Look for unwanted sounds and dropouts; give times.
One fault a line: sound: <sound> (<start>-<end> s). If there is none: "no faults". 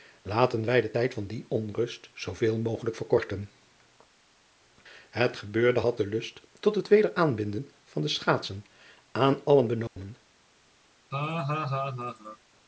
sound: dropout (9.9-10.0 s)
sound: laugh (11.1-12.4 s)